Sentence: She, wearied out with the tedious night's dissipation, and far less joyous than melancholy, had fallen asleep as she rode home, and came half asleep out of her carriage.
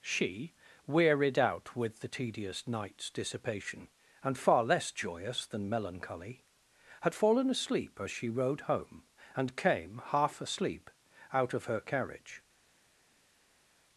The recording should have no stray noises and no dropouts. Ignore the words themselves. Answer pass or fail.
pass